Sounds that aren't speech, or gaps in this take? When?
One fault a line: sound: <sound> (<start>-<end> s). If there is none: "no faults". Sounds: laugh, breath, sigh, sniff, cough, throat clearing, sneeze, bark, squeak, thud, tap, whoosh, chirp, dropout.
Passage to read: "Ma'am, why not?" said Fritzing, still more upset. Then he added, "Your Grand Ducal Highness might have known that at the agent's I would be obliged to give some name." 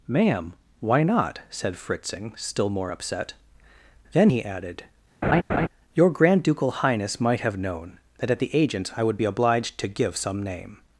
sound: laugh (5.2-5.7 s)